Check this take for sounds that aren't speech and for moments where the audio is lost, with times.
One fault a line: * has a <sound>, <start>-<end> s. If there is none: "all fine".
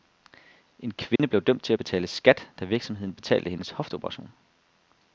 * has a dropout, 1.2-1.2 s